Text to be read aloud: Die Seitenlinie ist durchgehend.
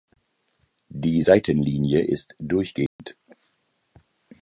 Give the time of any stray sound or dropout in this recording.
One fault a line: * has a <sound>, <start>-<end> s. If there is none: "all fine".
* has a dropout, 2.9-3.0 s